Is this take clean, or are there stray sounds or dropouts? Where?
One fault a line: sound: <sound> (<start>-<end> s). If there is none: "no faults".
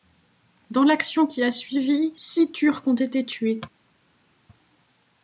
no faults